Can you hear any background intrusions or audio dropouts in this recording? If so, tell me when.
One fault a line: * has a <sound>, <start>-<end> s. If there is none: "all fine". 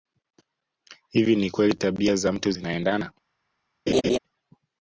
* has a laugh, 3.9-4.2 s